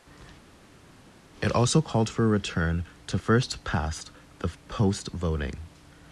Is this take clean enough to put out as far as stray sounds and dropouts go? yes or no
yes